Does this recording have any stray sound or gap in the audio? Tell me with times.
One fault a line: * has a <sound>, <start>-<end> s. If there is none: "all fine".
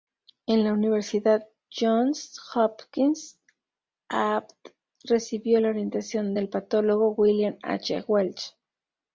all fine